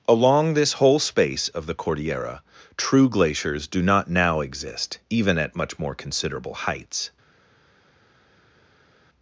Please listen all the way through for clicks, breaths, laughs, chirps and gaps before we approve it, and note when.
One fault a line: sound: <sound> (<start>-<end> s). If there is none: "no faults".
no faults